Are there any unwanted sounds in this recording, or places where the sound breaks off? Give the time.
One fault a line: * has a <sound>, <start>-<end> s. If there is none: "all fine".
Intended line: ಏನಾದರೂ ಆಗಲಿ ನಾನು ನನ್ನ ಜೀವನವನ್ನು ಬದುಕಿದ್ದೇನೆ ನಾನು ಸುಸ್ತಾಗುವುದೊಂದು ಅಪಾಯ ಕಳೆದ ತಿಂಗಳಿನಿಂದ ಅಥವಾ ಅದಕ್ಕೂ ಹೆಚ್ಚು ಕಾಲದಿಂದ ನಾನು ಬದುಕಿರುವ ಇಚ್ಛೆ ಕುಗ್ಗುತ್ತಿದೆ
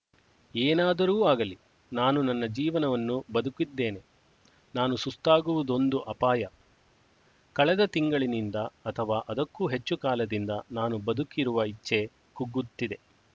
all fine